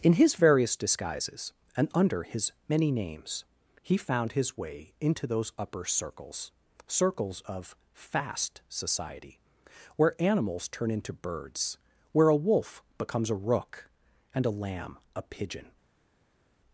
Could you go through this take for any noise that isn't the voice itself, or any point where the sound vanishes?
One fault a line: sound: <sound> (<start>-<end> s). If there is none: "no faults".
no faults